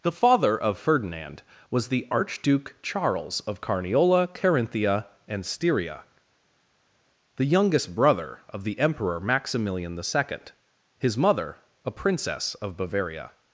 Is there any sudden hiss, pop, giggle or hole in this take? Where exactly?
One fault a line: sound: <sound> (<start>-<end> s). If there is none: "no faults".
no faults